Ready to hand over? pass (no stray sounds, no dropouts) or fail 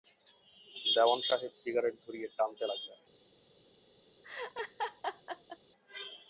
fail